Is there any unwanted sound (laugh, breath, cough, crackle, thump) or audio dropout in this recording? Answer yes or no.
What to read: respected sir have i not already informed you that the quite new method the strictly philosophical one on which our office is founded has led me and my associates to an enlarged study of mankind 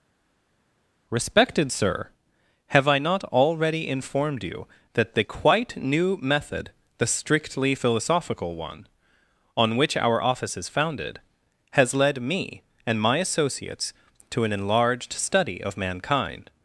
no